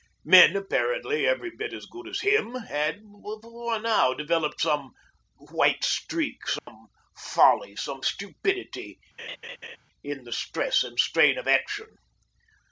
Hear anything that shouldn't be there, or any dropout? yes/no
yes